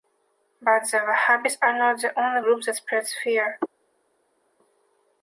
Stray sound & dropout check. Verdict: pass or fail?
pass